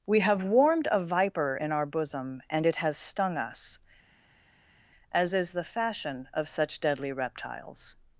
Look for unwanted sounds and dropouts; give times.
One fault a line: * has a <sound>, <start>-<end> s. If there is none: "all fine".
all fine